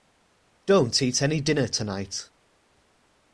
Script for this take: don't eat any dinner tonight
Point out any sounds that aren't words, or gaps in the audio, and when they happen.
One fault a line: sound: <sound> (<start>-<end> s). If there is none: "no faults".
no faults